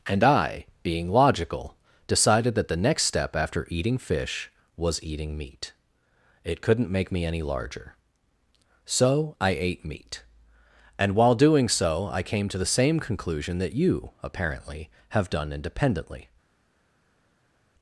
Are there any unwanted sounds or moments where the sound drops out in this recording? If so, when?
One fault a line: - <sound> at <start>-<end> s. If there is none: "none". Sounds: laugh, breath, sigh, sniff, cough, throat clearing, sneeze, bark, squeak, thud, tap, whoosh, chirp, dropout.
none